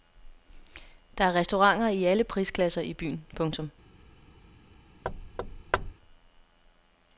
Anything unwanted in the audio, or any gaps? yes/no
yes